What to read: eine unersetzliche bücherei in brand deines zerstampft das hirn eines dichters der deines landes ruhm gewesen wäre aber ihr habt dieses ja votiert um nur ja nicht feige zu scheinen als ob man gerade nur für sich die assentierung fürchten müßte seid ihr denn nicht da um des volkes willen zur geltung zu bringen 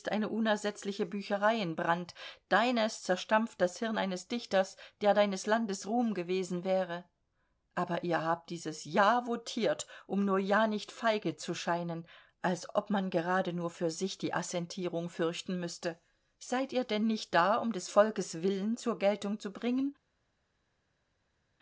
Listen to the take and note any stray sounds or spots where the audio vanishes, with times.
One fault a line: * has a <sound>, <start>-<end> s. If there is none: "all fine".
all fine